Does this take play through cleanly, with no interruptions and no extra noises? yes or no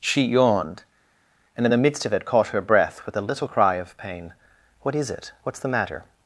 yes